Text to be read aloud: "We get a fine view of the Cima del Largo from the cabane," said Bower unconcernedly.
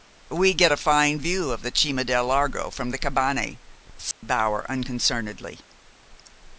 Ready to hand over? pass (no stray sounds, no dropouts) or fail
fail